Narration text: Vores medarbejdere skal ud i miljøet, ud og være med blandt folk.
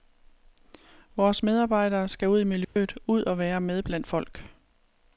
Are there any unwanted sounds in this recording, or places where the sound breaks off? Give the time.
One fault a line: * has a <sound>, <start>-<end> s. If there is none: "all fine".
* has a dropout, 2.6-2.8 s